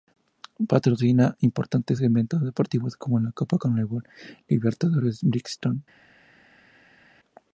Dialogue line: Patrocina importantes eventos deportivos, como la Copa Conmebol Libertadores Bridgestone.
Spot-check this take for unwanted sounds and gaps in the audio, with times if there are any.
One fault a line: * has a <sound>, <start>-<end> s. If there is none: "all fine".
all fine